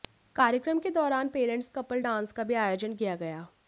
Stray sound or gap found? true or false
false